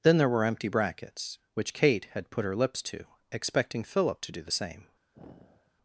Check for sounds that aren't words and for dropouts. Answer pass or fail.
fail